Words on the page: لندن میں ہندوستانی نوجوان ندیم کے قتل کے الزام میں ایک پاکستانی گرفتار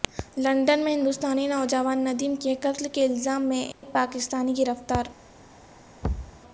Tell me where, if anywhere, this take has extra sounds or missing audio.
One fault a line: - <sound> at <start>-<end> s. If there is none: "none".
- dropout at 3.7-3.8 s
- thud at 6.0-6.4 s